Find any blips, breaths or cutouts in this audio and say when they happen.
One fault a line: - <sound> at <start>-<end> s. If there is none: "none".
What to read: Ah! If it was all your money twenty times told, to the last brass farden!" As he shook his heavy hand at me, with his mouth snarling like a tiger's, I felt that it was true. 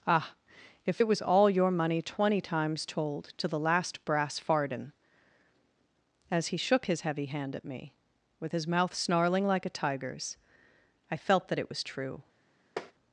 - tap at 12.8-12.9 s